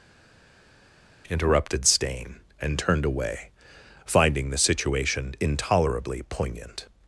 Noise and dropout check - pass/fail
pass